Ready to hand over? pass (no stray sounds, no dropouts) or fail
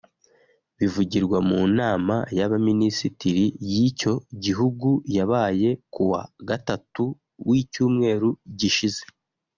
pass